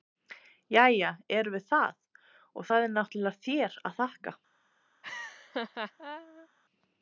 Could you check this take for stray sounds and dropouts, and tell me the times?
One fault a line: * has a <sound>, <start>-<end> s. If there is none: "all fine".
* has a laugh, 5.0-6.5 s